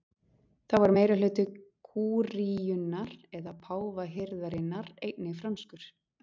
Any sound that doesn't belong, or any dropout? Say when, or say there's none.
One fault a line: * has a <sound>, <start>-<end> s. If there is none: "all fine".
all fine